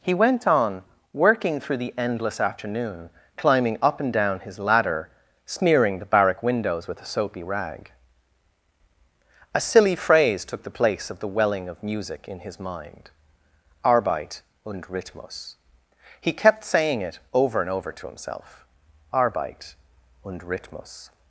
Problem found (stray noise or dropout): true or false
false